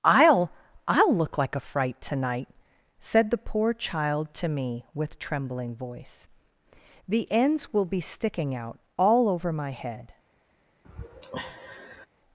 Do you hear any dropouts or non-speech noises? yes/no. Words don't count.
yes